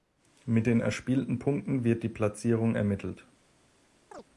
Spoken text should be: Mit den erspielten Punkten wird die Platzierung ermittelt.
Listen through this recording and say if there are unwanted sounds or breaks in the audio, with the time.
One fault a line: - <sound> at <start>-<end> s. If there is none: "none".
- chirp at 4.1-4.2 s